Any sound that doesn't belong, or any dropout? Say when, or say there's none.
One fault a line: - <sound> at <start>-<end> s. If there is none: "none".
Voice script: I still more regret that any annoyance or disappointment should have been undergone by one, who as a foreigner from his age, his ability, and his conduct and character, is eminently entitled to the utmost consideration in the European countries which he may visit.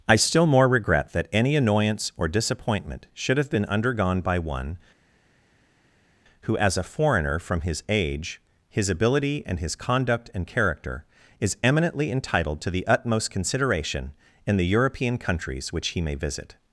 none